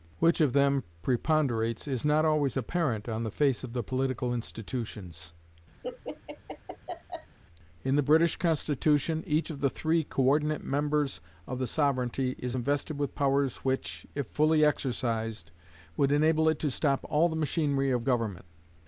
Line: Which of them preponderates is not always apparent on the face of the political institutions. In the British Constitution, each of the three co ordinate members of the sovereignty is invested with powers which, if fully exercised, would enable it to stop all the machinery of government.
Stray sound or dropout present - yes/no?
yes